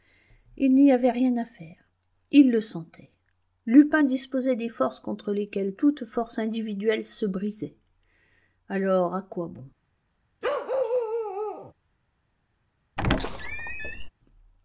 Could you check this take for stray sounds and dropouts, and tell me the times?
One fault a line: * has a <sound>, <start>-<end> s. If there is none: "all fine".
* has a bark, 10.4-11.7 s
* has a squeak, 13.0-14.1 s